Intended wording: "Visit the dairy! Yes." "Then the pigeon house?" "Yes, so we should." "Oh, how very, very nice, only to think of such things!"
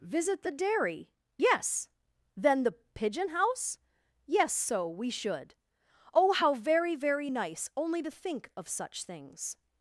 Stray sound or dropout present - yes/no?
no